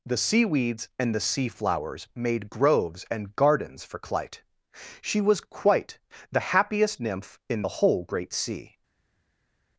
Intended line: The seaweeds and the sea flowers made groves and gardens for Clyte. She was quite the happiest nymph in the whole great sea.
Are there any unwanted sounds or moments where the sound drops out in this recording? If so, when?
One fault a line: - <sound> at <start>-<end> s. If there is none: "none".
none